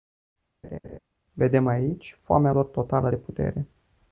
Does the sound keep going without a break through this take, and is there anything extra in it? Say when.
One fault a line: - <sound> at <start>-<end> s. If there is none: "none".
- laugh at 0.6-1.0 s